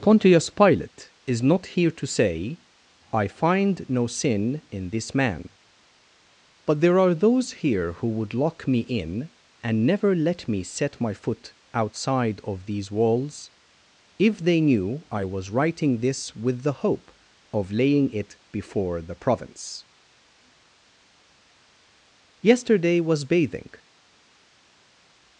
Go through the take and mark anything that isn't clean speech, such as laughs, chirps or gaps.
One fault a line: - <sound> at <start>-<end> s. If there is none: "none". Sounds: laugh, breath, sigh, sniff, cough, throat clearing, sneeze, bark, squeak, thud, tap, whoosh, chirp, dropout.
none